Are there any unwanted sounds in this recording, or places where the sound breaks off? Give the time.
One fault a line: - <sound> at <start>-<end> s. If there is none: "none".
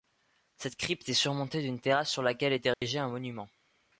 - dropout at 2.7-2.8 s